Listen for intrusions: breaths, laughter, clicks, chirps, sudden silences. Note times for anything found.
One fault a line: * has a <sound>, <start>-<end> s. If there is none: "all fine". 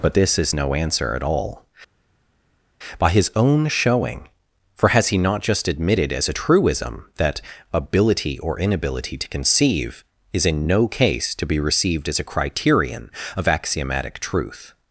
all fine